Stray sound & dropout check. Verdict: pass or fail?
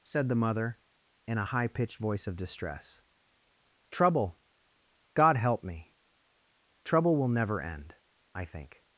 pass